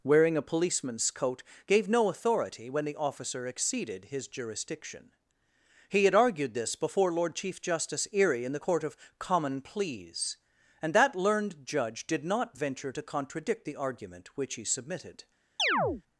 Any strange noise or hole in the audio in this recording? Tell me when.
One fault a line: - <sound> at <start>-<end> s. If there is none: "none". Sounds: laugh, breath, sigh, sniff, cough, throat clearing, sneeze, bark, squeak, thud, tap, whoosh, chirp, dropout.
- chirp at 15.6-16.0 s